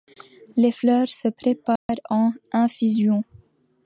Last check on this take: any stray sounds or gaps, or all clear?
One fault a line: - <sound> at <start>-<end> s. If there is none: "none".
- dropout at 1.8-1.9 s